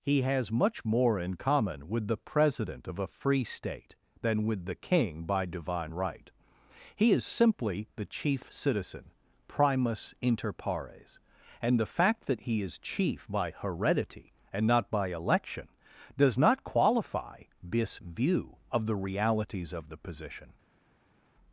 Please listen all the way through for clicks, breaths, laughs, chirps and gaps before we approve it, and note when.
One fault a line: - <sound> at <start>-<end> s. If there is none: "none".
none